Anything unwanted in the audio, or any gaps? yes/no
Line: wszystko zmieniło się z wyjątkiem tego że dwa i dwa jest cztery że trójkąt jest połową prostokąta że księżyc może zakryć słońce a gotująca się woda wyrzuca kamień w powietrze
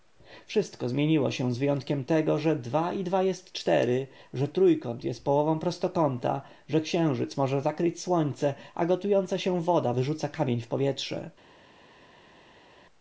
no